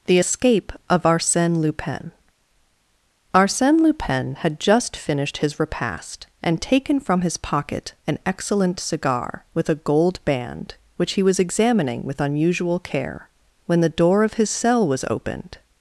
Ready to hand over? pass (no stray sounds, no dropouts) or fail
pass